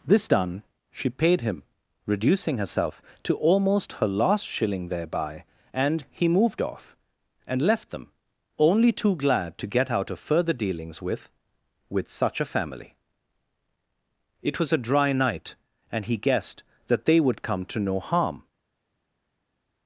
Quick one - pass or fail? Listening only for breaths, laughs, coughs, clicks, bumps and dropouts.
pass